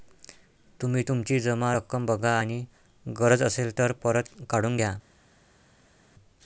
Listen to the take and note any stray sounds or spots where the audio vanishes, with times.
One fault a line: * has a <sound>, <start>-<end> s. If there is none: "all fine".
all fine